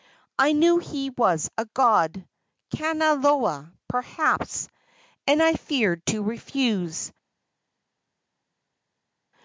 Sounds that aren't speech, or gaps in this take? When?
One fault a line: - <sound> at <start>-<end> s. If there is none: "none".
none